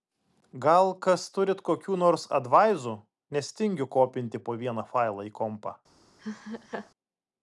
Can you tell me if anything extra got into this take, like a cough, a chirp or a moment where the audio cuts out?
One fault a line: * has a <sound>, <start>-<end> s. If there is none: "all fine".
* has a laugh, 6.2-6.9 s